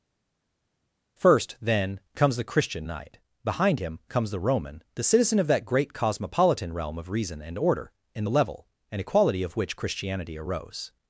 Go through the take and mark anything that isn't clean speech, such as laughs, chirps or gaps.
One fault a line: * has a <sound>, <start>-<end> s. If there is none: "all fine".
all fine